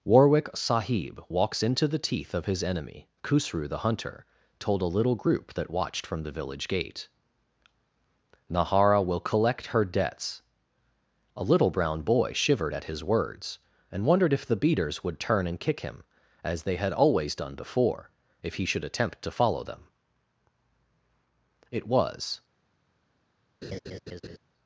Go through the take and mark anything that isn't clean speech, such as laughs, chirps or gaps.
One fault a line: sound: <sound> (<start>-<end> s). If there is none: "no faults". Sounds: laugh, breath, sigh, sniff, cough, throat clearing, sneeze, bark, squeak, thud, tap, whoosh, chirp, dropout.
sound: laugh (23.6-24.4 s)